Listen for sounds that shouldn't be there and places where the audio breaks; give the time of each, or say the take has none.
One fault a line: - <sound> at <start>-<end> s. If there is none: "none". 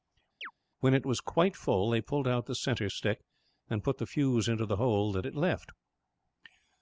- chirp at 0.4-0.5 s